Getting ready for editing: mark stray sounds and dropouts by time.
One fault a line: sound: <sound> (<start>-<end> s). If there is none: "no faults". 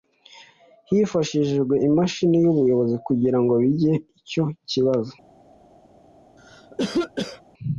sound: cough (6.4-7.4 s)